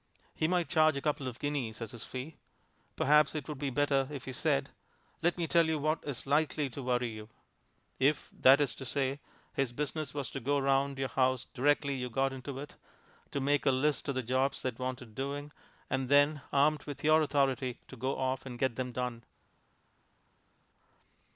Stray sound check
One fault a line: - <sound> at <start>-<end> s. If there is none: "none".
none